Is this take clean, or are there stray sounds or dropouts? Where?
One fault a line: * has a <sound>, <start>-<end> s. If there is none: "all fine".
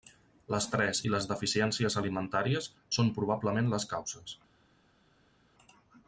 all fine